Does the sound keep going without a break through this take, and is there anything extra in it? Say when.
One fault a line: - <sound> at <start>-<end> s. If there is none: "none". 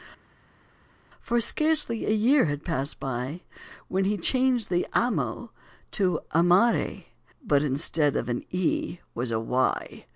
none